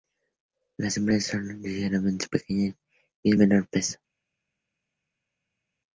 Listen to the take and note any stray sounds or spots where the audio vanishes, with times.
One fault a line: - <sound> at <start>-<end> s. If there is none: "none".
none